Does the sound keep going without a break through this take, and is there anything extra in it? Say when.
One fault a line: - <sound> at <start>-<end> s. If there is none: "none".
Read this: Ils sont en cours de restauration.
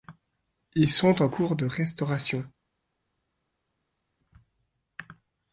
none